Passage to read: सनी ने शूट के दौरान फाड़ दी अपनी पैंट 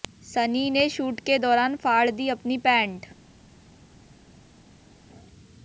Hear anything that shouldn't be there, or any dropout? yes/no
no